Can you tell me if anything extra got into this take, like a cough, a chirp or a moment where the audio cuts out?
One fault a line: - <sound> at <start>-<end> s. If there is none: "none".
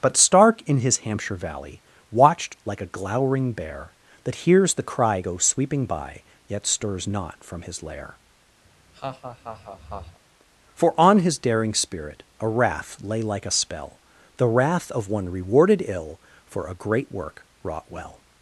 - laugh at 8.6-10.2 s